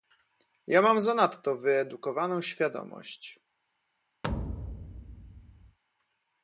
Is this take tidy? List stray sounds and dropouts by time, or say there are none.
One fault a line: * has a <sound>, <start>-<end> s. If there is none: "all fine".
* has a thud, 4.2-5.8 s